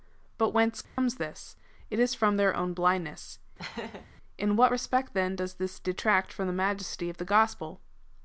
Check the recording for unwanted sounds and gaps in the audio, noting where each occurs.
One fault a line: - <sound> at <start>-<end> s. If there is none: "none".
- dropout at 0.8-1.0 s
- laugh at 3.6-4.1 s